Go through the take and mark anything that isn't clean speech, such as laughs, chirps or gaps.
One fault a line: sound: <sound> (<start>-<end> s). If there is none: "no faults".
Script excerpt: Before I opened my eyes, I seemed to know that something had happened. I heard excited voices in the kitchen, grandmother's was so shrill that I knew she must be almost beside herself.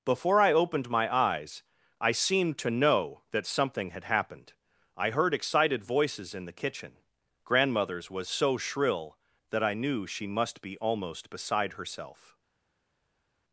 no faults